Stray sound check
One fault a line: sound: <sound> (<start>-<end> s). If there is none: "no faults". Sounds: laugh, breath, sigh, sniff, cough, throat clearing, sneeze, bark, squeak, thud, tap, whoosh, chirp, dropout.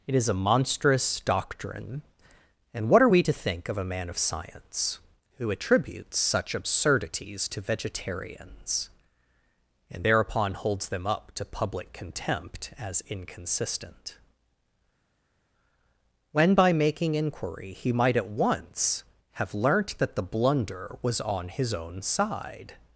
no faults